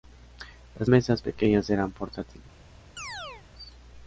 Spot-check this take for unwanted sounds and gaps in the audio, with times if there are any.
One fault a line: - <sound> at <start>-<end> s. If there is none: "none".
- chirp at 3.0-3.5 s